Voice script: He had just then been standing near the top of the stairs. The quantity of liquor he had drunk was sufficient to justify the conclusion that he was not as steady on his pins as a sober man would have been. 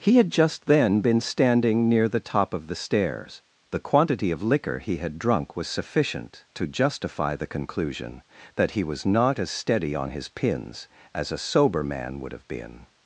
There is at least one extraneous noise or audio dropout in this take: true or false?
false